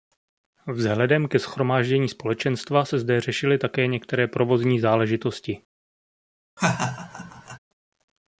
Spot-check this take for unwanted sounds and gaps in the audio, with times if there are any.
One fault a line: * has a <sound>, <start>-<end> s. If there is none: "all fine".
* has a laugh, 6.6-7.6 s